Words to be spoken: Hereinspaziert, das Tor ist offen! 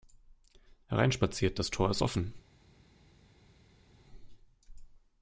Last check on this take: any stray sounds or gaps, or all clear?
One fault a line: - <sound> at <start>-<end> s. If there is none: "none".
none